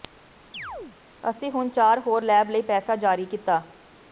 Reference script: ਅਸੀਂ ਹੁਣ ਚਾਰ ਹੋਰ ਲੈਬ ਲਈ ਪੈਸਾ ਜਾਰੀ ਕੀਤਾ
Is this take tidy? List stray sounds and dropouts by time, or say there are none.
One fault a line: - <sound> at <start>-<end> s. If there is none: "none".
- chirp at 0.5-1.0 s